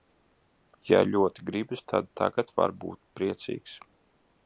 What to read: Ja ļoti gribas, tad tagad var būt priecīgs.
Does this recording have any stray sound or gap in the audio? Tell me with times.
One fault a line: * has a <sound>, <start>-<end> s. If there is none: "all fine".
all fine